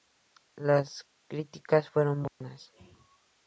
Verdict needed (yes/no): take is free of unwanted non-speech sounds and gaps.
no